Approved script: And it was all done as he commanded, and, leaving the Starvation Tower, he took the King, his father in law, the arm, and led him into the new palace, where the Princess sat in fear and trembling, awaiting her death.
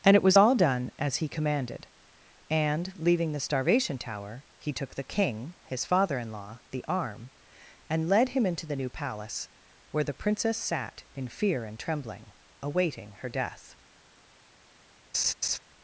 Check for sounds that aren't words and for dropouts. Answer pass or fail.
fail